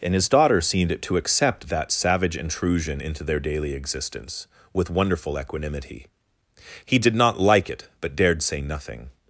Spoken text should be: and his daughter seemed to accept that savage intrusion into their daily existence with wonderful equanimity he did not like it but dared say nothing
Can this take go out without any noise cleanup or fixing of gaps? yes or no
yes